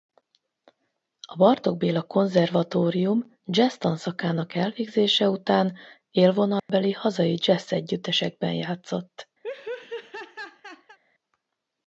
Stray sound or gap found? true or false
true